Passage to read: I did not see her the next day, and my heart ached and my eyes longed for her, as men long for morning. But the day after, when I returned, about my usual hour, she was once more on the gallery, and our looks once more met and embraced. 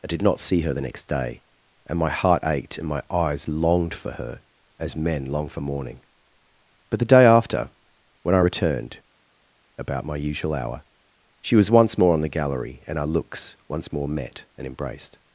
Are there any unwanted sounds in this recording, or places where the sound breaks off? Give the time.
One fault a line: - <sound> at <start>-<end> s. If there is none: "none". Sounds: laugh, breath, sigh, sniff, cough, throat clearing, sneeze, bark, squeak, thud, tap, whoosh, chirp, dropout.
none